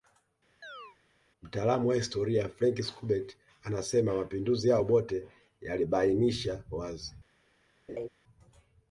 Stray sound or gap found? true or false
true